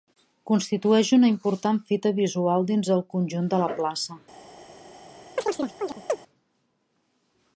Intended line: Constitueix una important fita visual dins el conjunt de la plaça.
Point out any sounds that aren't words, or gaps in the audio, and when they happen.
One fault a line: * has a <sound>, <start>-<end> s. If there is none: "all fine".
* has a chirp, 5.4-6.2 s